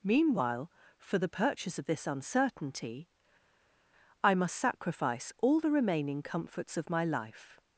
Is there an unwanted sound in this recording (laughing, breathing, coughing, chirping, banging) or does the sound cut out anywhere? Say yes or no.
no